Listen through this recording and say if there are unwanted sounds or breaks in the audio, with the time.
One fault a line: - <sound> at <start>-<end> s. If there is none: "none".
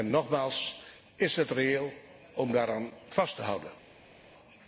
none